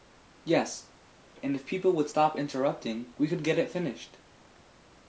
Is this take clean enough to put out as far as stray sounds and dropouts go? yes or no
yes